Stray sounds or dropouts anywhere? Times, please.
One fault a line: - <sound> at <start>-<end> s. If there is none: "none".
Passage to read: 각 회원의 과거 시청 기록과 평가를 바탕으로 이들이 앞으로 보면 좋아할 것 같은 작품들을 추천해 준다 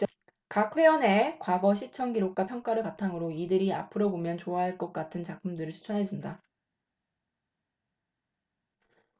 none